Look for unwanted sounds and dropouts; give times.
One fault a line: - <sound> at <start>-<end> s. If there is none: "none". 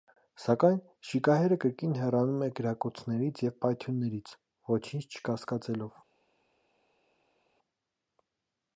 none